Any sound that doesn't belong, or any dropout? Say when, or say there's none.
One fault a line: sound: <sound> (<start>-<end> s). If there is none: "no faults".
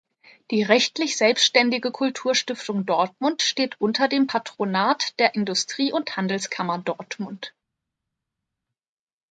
no faults